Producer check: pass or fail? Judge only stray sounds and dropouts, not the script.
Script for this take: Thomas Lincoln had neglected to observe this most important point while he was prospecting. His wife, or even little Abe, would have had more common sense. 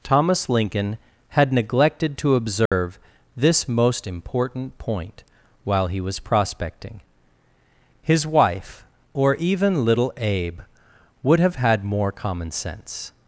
fail